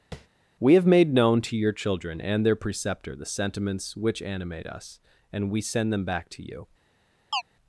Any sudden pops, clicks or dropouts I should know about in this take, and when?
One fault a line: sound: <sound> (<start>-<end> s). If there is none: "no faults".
sound: tap (0.1-0.3 s)
sound: chirp (7.3-7.4 s)